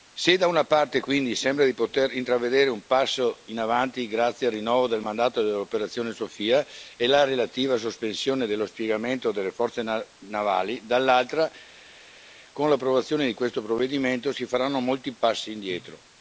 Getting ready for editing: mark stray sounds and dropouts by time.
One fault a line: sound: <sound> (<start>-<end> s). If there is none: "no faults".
no faults